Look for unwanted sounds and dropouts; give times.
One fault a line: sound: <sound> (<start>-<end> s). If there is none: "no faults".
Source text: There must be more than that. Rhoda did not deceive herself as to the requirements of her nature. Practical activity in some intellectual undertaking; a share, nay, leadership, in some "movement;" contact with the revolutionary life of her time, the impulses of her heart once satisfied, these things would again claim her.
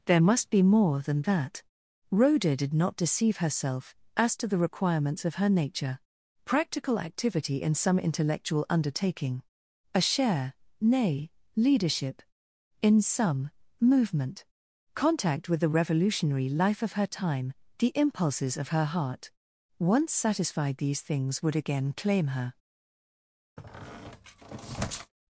sound: squeak (23.6-25.1 s)